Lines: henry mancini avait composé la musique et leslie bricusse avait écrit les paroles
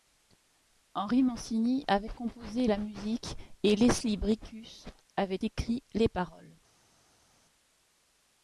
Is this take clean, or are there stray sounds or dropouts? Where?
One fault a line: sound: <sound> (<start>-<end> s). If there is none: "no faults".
no faults